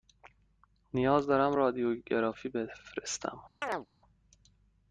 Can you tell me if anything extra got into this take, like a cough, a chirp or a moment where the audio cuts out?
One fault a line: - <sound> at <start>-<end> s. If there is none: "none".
- chirp at 3.6-3.9 s